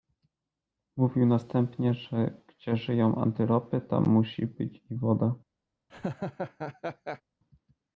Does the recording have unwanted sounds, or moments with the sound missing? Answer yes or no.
yes